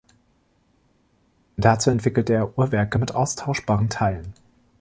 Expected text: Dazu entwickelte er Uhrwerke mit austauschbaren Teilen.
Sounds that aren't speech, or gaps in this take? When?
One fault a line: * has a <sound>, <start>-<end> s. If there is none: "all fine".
all fine